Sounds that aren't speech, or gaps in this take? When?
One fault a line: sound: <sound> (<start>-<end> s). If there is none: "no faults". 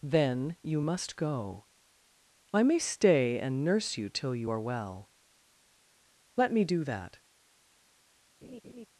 sound: laugh (8.4-8.9 s)